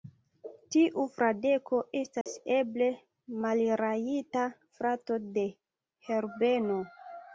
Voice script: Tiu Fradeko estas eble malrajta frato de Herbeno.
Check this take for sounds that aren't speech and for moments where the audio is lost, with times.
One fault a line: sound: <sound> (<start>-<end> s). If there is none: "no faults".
sound: dropout (2.2-2.3 s)